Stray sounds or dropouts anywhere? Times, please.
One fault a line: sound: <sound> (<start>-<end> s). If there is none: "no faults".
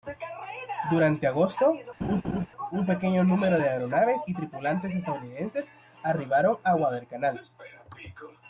sound: laugh (2.0-2.5 s)